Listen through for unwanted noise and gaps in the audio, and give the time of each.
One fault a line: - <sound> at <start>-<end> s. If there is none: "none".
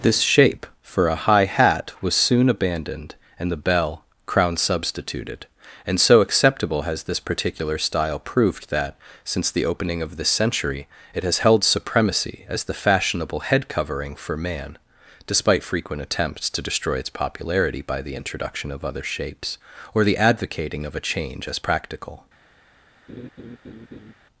- laugh at 23.1-24.1 s